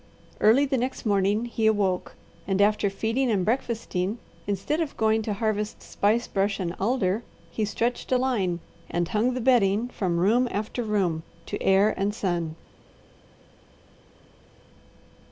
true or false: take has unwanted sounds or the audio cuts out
false